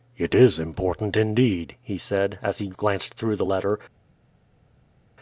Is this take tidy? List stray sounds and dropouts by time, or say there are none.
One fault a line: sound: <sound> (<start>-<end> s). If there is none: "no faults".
no faults